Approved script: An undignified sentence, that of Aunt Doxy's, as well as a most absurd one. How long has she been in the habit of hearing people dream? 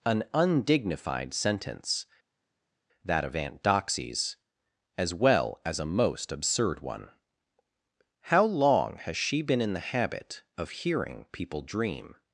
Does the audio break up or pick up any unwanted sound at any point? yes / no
no